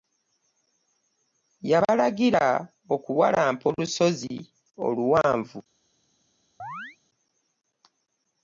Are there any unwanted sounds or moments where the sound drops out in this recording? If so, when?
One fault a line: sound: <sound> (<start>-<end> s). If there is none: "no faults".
sound: chirp (6.6-7.0 s)